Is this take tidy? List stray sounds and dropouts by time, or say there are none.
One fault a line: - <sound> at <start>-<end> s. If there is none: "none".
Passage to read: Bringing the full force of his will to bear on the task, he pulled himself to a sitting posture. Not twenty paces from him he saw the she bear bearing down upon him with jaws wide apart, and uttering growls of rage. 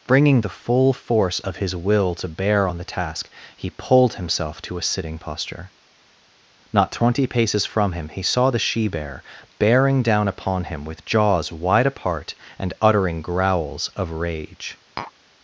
- tap at 15.0-15.1 s